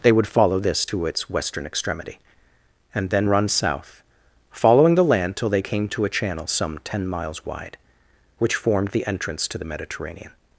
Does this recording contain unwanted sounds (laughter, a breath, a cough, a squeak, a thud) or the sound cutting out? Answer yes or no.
no